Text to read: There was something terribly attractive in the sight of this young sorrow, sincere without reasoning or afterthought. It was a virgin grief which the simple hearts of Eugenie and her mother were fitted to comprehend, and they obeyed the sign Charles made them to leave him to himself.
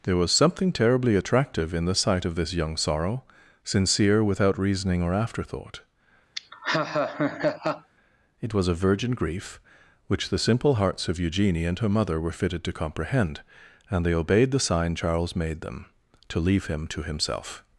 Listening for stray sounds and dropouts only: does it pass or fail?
fail